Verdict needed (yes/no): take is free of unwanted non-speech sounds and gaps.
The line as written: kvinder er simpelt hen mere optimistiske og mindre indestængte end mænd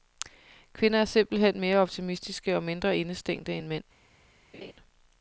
no